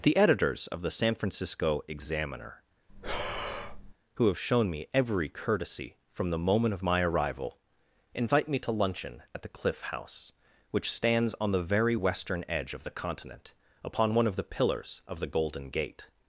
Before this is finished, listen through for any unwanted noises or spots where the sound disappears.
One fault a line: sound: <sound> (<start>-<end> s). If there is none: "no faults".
sound: breath (2.9-3.9 s)